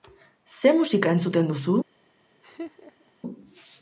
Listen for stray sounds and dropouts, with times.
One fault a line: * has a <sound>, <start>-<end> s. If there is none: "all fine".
* has a laugh, 2.4-3.1 s